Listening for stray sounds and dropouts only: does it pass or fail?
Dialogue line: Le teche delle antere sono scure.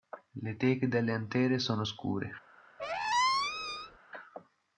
fail